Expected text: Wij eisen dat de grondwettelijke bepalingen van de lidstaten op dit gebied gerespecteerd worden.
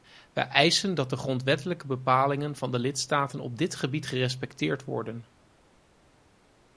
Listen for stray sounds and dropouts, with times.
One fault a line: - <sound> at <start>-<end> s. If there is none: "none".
none